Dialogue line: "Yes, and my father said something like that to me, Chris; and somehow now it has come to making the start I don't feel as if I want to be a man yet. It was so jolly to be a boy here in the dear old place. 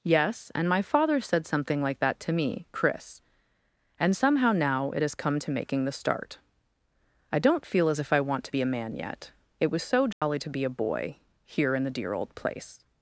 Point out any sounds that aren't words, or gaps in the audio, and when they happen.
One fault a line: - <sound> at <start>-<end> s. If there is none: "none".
- dropout at 10.1-10.2 s